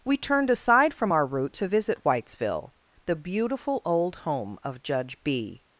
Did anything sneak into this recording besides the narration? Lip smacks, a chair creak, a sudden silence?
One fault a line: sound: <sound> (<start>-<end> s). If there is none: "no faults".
no faults